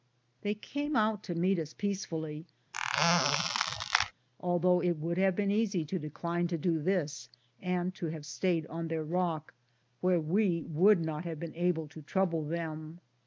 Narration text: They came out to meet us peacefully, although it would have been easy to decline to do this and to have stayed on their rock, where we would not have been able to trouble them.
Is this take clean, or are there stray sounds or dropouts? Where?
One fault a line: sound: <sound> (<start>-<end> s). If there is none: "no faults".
sound: squeak (2.7-4.1 s)